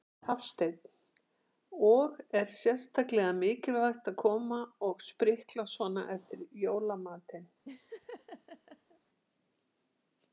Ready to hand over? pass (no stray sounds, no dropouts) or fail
fail